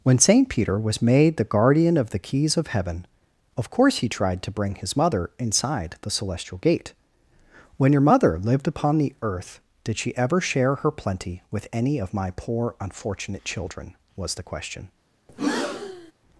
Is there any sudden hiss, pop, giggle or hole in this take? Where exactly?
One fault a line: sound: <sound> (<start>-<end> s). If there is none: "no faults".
sound: breath (15.3-16.1 s)